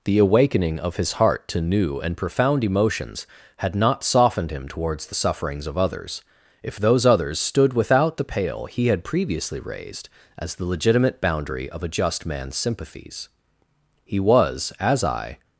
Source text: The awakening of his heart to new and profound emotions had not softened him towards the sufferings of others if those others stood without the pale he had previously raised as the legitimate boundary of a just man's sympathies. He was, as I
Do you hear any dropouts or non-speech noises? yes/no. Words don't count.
no